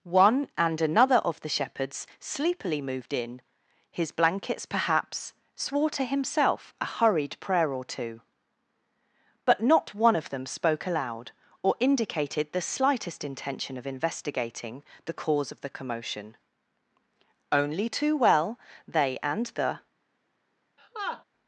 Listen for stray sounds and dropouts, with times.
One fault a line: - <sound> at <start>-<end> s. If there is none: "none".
- laugh at 20.8-21.2 s